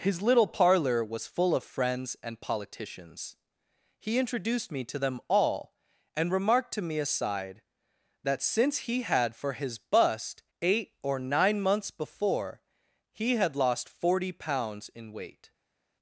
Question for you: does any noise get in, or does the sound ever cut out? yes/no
no